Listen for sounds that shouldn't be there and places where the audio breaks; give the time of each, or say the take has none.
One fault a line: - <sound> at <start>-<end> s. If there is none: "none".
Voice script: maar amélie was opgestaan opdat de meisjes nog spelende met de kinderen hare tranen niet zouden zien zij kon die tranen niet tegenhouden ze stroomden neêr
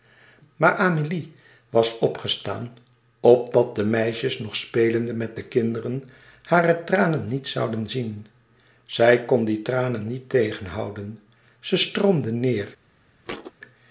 - thud at 13.2-13.5 s